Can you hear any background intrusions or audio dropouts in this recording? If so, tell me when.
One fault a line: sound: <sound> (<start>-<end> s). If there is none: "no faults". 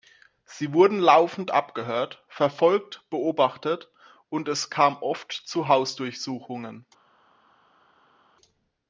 no faults